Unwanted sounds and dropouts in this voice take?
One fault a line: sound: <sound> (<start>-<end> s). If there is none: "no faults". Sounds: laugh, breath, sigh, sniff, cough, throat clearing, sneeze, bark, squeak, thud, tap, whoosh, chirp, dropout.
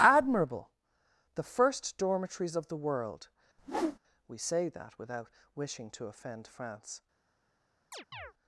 sound: whoosh (3.6-4.0 s)
sound: chirp (7.9-8.3 s)